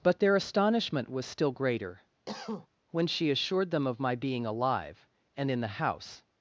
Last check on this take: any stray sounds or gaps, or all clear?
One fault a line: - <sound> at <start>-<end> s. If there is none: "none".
- cough at 2.3-2.7 s